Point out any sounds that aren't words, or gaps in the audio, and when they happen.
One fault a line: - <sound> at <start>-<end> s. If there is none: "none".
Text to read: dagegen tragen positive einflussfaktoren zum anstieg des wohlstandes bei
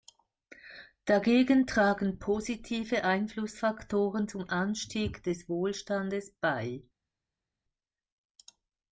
none